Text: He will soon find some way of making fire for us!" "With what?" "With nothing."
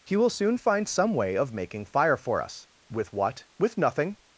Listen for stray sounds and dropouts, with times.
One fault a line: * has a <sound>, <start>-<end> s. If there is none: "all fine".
all fine